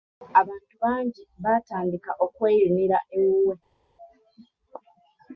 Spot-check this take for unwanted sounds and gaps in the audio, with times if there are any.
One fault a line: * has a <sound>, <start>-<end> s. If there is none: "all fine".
all fine